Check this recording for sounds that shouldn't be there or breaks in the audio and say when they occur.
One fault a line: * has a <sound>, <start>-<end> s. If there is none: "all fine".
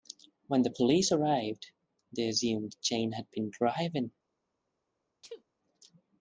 * has a sneeze, 5.2-5.4 s